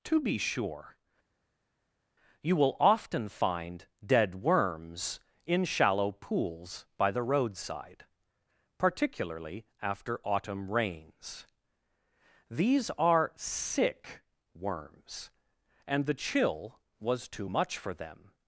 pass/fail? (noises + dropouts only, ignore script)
pass